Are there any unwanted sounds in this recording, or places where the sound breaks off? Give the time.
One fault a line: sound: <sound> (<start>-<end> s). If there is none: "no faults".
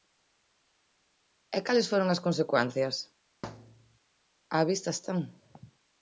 sound: thud (3.4-4.0 s)